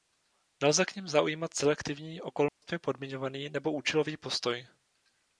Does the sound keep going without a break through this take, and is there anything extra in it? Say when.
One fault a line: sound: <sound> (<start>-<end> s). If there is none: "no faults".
sound: dropout (2.5-2.6 s)